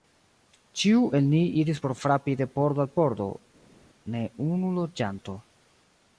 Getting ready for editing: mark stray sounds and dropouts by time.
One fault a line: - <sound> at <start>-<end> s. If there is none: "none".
none